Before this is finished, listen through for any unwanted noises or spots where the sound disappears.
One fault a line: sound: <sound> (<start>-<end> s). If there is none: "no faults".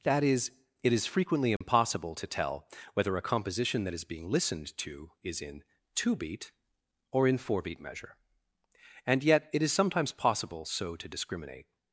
sound: dropout (1.6-1.6 s)